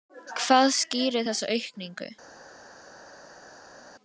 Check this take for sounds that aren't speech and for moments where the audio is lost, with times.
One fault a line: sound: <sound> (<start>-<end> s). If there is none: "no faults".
no faults